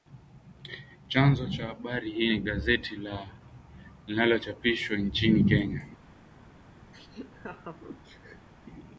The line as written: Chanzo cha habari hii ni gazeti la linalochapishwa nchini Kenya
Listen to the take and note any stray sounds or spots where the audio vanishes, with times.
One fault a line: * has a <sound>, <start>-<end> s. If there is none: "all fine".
* has a laugh, 6.9-8.5 s